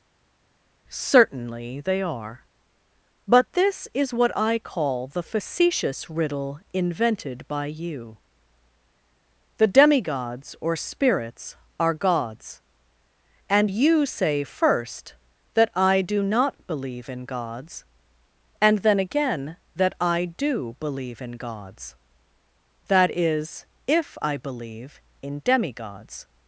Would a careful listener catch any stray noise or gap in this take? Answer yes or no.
no